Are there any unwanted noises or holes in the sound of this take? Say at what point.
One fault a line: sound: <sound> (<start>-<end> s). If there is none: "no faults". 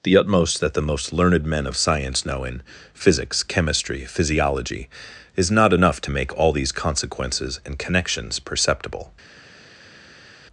no faults